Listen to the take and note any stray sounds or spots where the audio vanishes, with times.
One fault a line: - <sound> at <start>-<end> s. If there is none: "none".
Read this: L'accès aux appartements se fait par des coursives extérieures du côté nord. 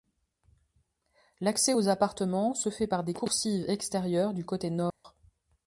- dropout at 4.9-5.0 s